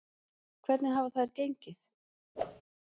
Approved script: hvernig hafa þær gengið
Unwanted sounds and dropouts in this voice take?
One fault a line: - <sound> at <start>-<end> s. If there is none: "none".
- whoosh at 2.4-2.6 s